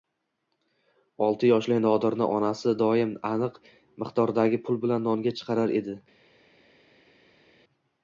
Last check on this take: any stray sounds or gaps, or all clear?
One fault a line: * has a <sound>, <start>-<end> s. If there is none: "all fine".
all fine